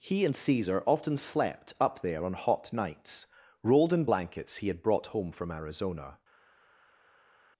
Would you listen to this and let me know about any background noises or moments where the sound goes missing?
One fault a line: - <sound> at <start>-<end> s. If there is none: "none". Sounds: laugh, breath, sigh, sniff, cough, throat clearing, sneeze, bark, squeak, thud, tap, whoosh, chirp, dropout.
none